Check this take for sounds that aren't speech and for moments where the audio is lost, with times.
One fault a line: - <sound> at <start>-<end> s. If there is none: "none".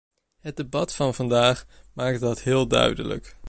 none